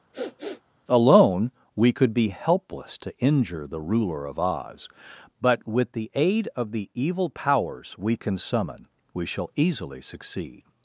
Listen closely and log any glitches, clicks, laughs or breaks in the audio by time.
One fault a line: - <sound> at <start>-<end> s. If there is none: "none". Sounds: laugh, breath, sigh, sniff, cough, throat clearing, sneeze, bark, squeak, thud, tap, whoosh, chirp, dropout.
- sniff at 0.1-0.6 s